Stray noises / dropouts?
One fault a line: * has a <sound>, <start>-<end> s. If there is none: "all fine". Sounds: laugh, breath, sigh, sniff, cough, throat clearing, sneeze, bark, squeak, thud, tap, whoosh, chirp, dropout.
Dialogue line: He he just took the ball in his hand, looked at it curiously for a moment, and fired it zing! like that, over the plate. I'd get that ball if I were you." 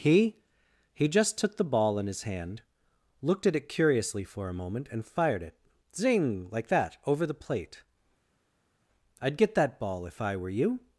all fine